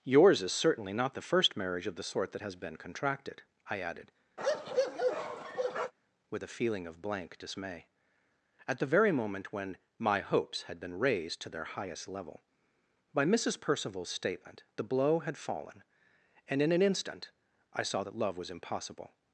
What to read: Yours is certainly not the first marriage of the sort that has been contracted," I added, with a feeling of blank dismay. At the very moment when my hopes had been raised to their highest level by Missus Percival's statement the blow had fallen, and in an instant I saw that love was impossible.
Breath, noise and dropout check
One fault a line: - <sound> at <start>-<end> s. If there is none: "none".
- bark at 4.4-5.9 s